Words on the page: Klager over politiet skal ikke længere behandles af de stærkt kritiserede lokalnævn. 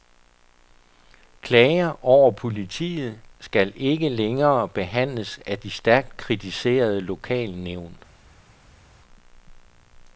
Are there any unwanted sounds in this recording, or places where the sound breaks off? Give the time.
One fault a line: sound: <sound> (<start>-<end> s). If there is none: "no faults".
no faults